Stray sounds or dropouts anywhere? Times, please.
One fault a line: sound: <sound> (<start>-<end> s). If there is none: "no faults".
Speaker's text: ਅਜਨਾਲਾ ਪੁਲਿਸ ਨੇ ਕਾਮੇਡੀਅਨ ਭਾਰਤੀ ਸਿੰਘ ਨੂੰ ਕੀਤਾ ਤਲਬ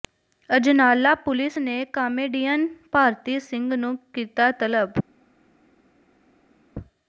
no faults